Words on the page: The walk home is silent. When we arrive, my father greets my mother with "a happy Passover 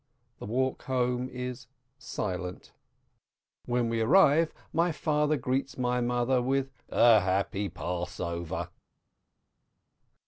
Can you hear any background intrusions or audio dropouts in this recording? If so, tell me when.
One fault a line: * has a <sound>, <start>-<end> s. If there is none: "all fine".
all fine